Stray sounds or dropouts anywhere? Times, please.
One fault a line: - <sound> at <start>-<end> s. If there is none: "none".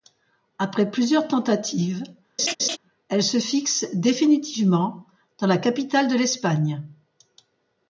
- laugh at 2.4-2.8 s